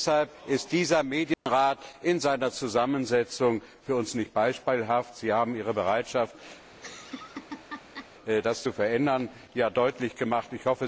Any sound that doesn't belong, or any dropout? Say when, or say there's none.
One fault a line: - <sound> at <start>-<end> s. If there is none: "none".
- dropout at 1.3-1.5 s
- laugh at 6.7-8.1 s